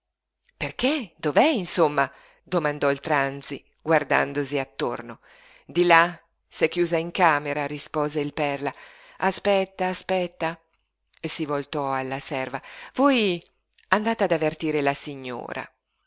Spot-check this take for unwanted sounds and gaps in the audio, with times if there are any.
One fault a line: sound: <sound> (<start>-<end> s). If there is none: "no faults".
no faults